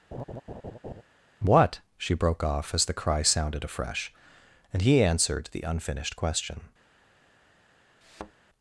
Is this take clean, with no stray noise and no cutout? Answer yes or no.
no